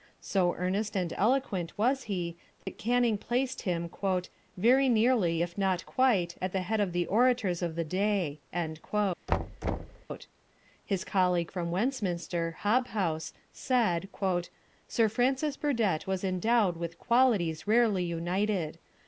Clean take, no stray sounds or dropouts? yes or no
no